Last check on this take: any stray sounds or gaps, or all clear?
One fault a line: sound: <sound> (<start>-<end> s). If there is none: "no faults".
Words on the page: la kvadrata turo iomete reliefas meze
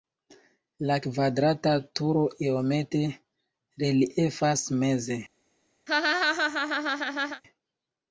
sound: laugh (5.9-7.4 s)